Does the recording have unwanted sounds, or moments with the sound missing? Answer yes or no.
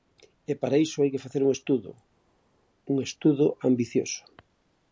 no